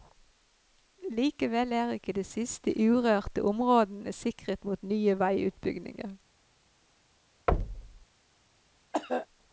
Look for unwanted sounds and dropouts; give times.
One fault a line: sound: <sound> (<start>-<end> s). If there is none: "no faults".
sound: thud (7.5-8.0 s)
sound: cough (8.9-9.3 s)